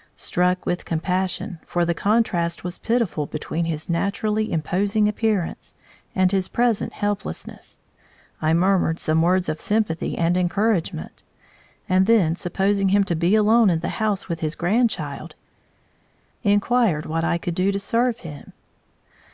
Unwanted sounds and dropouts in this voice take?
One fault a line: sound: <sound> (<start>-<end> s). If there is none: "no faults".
no faults